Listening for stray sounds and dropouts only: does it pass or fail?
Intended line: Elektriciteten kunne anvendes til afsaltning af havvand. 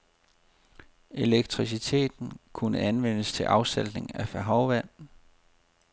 pass